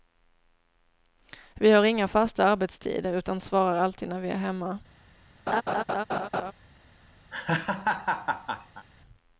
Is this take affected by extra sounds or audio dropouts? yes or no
yes